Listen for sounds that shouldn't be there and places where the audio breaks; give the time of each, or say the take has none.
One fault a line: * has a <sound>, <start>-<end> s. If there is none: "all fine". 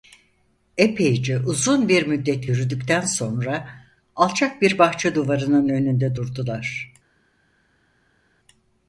all fine